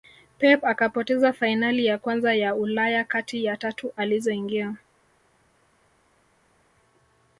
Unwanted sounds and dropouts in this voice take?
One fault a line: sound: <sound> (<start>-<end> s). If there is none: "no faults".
no faults